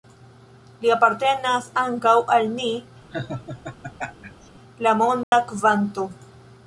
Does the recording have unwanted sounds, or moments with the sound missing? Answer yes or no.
yes